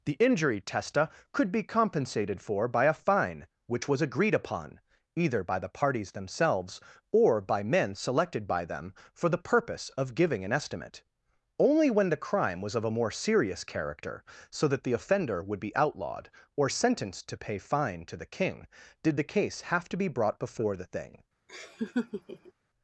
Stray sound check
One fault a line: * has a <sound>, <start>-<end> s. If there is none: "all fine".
* has a laugh, 21.5-22.5 s